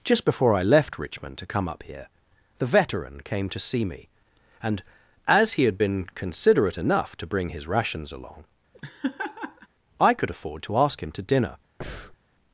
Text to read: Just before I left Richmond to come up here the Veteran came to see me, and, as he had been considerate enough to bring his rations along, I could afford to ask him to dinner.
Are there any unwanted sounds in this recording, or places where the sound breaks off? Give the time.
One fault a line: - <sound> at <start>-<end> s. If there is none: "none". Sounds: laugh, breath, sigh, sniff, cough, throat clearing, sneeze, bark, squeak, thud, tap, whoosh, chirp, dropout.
- laugh at 8.7-9.7 s
- breath at 11.8-12.2 s